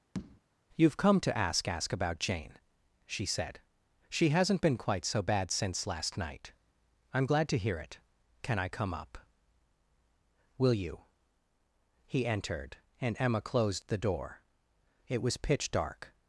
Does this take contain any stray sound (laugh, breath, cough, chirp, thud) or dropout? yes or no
yes